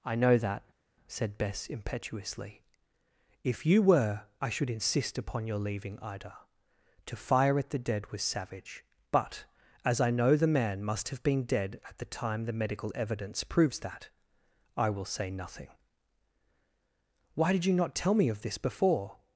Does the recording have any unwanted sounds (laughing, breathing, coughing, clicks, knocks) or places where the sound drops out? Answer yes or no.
no